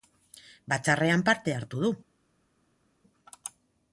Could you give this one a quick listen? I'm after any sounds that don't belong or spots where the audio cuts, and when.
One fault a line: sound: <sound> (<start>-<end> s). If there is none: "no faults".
no faults